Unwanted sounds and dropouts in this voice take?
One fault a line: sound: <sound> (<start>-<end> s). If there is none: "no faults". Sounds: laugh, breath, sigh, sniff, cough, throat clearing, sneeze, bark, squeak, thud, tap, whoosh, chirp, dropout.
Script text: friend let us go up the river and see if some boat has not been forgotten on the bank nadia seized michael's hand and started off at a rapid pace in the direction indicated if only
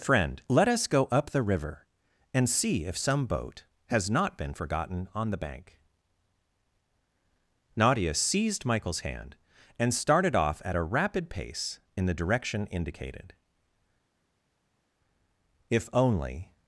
no faults